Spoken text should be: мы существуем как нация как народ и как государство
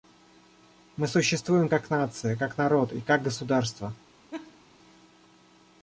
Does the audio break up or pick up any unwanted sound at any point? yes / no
yes